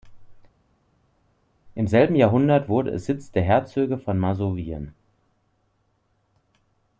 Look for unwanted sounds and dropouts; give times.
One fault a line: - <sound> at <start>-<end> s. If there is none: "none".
none